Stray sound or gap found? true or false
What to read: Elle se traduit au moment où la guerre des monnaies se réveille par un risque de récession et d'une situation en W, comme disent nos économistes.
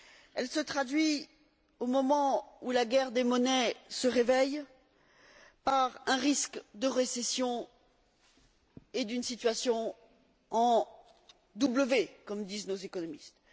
false